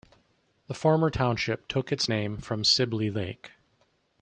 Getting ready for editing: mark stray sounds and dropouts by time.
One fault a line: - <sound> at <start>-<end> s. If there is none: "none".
none